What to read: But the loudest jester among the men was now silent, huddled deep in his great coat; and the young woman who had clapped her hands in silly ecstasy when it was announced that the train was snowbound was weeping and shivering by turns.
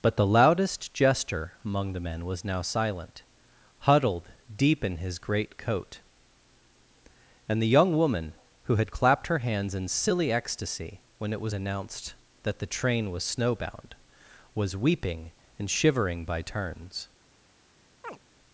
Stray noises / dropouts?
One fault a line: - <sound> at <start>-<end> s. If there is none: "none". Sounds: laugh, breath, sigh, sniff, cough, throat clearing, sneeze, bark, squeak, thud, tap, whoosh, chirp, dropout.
- chirp at 18.0-18.2 s